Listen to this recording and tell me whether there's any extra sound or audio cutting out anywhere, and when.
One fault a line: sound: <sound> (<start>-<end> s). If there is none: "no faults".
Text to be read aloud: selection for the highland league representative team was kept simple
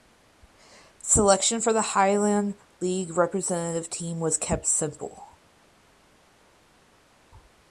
no faults